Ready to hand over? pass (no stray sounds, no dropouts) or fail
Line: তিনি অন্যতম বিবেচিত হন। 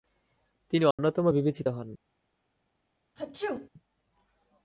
fail